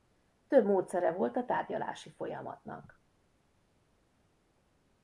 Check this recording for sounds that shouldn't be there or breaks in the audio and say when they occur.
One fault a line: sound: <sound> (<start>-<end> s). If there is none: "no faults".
no faults